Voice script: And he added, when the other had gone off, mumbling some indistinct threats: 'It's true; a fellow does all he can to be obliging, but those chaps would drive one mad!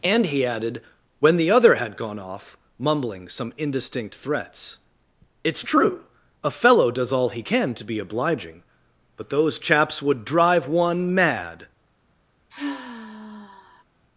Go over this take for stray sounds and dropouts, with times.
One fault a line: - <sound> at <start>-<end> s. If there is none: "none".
- sigh at 12.5-13.8 s